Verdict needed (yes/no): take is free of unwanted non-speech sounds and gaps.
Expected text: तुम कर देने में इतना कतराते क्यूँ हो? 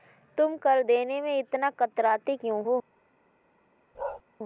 no